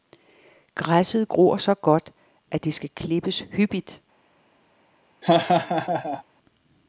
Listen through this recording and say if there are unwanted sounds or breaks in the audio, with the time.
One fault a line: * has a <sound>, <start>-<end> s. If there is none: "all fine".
* has a laugh, 5.2-6.2 s